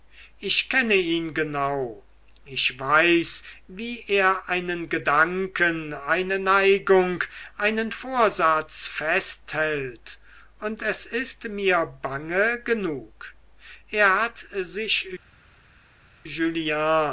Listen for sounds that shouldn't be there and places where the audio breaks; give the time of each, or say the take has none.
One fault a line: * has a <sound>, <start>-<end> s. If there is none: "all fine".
all fine